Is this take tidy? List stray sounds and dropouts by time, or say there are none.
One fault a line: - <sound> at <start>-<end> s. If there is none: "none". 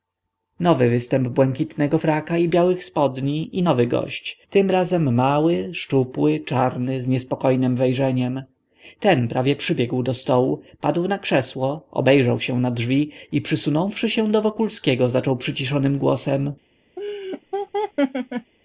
- laugh at 17.0-18.5 s